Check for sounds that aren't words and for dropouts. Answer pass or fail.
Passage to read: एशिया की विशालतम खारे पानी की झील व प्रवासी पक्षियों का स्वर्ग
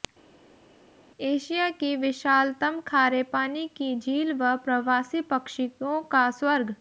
pass